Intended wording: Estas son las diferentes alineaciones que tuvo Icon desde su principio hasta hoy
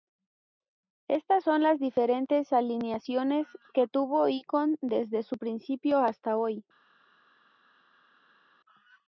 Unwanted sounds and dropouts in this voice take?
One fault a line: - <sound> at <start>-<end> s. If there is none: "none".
none